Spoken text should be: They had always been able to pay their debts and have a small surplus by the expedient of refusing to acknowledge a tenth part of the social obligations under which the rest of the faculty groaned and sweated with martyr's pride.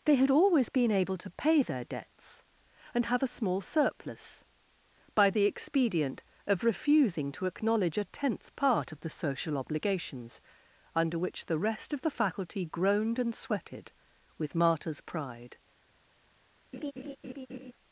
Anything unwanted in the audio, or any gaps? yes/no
yes